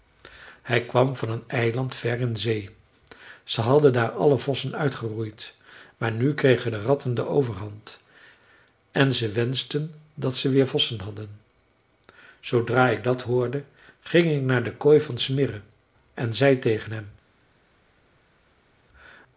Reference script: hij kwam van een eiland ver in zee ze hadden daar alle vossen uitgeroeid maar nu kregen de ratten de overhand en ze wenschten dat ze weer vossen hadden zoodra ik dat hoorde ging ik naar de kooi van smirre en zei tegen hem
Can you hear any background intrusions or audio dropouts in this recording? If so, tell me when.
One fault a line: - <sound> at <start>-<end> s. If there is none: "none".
none